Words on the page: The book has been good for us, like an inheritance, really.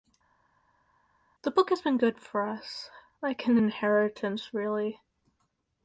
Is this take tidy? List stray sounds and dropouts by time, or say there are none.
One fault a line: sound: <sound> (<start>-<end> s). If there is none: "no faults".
no faults